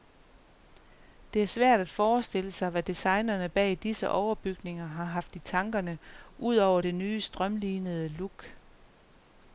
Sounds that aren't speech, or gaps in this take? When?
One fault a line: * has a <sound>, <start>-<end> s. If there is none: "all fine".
all fine